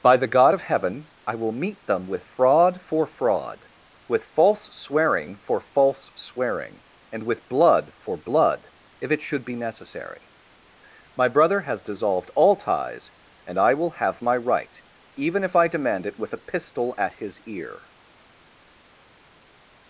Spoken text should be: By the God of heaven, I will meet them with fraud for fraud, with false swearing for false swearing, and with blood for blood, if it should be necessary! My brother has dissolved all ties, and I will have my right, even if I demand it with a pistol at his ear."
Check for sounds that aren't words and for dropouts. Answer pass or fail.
pass